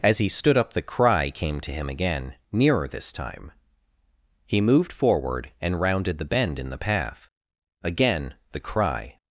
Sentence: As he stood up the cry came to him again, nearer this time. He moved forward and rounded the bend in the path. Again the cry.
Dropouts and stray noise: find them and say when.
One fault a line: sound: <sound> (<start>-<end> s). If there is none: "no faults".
no faults